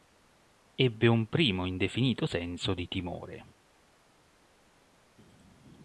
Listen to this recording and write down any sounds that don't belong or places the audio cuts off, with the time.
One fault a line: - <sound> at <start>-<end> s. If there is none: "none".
none